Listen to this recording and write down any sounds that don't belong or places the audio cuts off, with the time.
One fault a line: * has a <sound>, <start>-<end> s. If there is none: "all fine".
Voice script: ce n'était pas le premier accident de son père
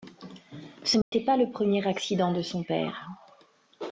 * has a dropout, 1.0-1.1 s